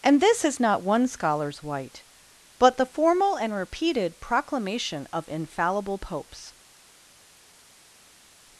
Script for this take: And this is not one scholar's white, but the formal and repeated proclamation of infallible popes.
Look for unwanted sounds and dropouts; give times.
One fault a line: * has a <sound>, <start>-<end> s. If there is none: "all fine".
all fine